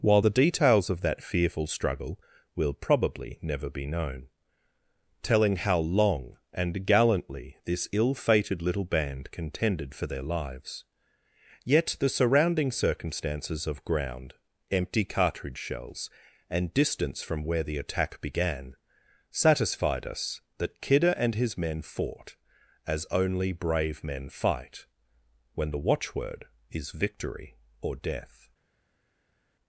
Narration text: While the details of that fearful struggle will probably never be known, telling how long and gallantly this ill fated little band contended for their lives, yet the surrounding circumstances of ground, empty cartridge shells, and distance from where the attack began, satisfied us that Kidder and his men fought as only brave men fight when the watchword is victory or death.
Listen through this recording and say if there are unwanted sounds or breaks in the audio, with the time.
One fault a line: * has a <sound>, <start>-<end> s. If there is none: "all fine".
all fine